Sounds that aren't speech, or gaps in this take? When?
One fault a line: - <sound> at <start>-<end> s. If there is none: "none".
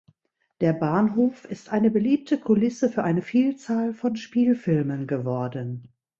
none